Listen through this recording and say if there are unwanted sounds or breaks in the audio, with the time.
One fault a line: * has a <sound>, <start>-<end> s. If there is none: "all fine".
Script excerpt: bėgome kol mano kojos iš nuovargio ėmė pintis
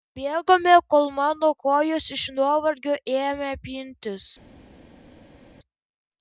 all fine